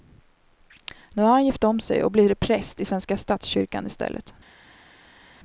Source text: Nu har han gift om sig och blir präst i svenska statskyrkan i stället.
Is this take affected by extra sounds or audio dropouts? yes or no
no